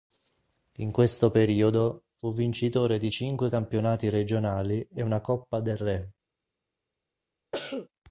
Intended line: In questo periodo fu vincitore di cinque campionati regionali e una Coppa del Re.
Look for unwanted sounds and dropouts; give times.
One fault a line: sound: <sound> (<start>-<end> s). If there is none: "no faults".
sound: cough (7.5-7.9 s)